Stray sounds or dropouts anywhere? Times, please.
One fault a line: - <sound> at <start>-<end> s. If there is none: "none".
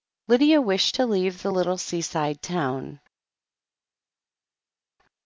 none